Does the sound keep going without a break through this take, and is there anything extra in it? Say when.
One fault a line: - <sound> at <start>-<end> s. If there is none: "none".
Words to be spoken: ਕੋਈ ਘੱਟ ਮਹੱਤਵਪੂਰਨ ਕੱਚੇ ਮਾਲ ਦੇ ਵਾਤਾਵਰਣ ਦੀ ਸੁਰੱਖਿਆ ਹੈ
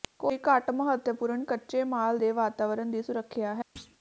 - thud at 3.8-4.0 s